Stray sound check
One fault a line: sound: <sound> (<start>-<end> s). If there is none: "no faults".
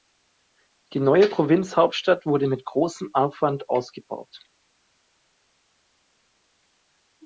no faults